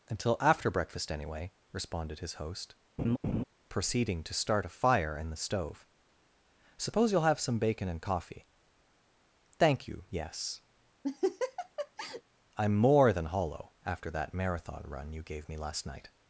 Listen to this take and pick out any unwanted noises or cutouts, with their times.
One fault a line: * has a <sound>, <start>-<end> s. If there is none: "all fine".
* has a laugh, 3.0-3.4 s
* has a laugh, 11.0-12.2 s